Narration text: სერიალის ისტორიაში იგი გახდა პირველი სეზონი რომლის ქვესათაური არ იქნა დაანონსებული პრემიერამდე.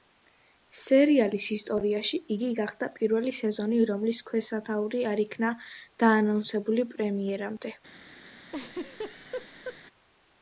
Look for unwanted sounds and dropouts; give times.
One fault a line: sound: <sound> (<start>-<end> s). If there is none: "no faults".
sound: laugh (8.5-9.8 s)